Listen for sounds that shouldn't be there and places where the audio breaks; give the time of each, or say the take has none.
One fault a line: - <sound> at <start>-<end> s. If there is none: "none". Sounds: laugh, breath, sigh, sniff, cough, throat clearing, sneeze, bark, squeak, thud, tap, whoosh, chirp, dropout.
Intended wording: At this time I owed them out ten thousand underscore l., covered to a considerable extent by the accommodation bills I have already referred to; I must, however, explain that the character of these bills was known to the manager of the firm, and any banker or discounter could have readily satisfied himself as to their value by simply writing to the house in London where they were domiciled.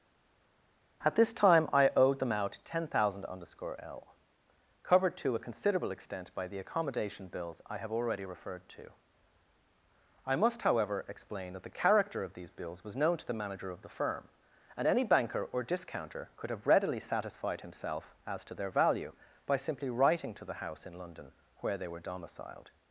none